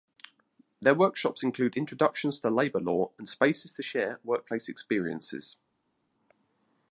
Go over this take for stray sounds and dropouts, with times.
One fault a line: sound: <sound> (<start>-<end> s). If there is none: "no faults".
no faults